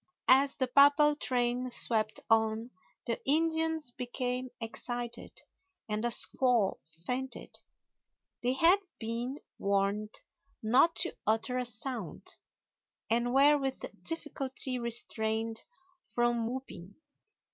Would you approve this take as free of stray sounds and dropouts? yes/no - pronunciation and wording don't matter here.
yes